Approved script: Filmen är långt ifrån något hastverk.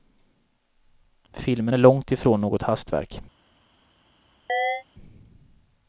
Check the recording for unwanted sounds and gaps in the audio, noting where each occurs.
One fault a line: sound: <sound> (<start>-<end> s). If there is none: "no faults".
sound: chirp (4.5-4.8 s)